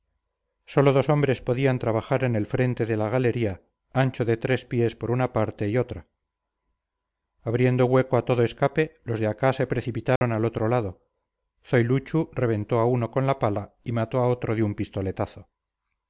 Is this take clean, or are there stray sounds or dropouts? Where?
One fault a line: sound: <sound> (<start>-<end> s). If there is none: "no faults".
sound: dropout (10.2-10.2 s)